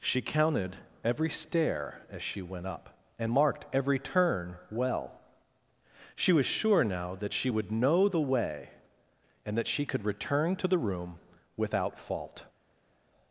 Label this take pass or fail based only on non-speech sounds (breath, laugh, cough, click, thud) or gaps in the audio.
pass